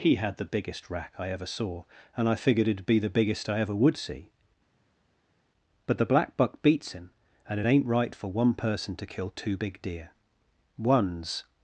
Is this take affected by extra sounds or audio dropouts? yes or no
no